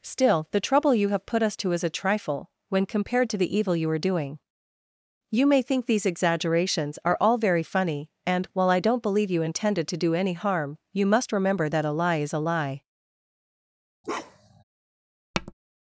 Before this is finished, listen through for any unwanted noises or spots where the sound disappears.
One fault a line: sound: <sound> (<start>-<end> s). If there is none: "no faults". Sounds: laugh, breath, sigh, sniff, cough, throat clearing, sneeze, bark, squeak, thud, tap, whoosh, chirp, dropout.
sound: bark (14.0-14.6 s)
sound: tap (15.3-15.5 s)